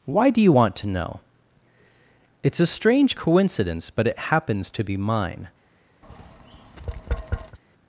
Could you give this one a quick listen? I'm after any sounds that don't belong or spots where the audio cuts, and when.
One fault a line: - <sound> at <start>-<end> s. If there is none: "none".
- tap at 6.0-7.6 s